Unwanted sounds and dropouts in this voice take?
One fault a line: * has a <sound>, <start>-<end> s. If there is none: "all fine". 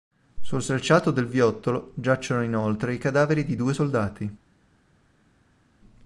all fine